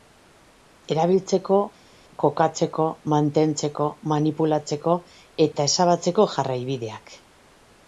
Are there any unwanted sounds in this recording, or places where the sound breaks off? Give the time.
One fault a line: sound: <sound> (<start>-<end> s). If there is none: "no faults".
no faults